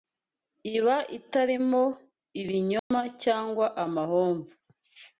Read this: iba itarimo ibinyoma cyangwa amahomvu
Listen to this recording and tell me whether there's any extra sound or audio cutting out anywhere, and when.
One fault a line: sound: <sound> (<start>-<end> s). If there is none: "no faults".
sound: dropout (2.8-2.9 s)